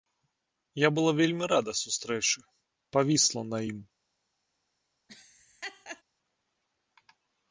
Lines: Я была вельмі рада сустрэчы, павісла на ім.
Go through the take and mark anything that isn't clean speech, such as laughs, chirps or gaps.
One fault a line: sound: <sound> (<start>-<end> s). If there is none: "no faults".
sound: laugh (5.1-6.0 s)